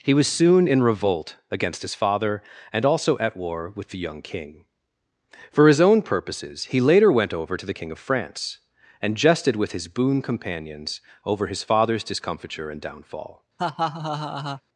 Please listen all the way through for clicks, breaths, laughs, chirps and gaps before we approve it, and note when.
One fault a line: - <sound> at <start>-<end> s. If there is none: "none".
- laugh at 13.6-14.6 s